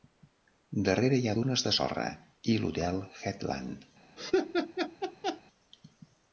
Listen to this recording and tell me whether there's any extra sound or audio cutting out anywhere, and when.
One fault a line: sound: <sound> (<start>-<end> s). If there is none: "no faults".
sound: laugh (4.2-5.4 s)